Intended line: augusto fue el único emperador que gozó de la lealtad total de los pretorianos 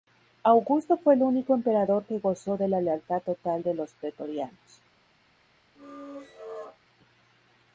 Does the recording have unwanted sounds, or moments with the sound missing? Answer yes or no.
yes